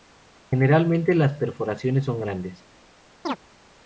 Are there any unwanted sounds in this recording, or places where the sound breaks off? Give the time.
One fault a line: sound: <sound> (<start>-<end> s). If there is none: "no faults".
sound: chirp (3.2-3.4 s)